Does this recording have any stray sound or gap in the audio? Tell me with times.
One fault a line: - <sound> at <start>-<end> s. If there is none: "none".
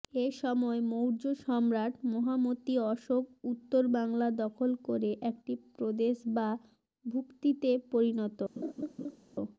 - laugh at 8.6-9.2 s